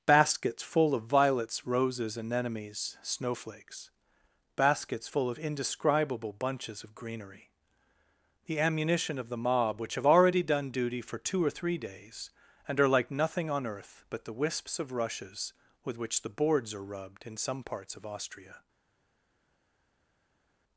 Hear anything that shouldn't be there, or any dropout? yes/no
no